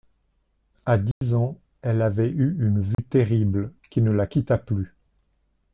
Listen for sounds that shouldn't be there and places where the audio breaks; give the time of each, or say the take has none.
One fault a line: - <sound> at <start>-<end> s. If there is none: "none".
- dropout at 1.1-1.2 s
- dropout at 2.9-3.0 s